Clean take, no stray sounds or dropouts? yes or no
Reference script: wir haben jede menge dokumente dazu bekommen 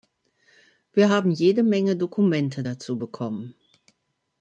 yes